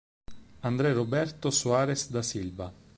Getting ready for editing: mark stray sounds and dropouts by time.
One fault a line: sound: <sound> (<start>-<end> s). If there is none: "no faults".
no faults